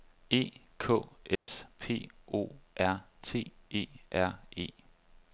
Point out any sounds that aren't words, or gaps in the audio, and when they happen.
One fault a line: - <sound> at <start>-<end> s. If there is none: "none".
- dropout at 1.4-1.5 s